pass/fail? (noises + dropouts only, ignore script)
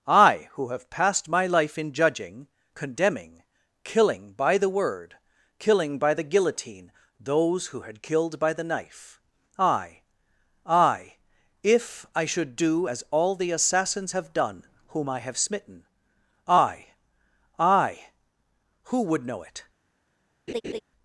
fail